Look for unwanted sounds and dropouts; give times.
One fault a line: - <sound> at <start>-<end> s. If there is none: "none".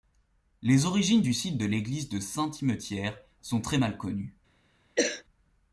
- cough at 5.0-5.2 s